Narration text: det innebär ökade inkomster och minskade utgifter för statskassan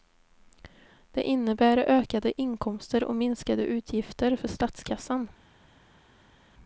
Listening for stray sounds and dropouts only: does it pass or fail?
pass